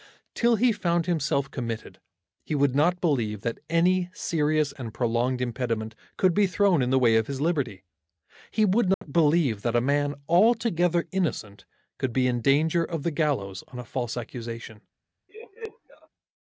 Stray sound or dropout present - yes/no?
yes